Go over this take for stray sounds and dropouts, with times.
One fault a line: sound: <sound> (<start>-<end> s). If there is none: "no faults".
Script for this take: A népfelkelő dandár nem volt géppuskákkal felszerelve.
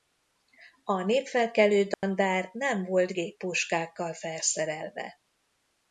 sound: dropout (1.9-2.0 s)